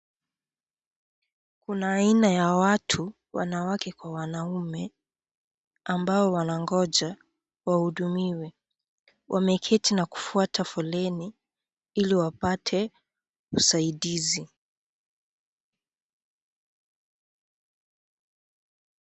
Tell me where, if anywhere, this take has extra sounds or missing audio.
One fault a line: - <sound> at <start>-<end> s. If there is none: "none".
none